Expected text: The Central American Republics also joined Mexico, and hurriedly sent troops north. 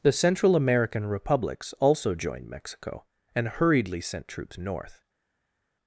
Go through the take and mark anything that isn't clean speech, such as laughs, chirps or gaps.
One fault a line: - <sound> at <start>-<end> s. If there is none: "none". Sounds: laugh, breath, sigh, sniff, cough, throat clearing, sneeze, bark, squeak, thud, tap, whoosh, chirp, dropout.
none